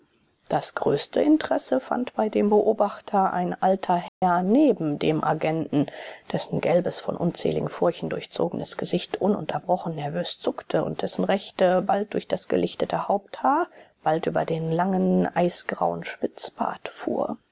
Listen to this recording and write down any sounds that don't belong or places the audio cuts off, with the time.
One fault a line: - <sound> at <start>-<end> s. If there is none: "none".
- dropout at 4.1-4.2 s